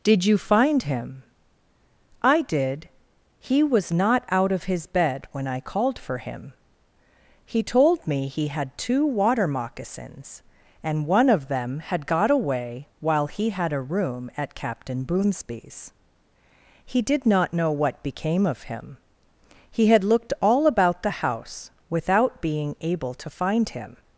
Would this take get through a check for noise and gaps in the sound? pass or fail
pass